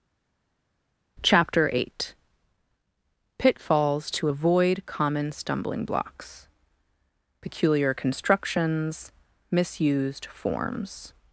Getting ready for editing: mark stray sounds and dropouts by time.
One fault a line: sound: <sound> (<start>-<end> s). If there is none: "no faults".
no faults